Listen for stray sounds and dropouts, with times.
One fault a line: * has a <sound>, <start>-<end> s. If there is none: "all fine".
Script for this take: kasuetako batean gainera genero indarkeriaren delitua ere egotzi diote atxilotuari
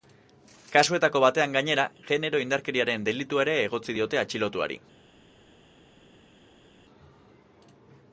all fine